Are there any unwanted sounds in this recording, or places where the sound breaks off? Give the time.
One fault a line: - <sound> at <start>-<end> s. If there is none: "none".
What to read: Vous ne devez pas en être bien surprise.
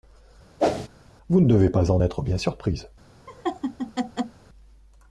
- whoosh at 0.6-0.9 s
- laugh at 3.3-4.4 s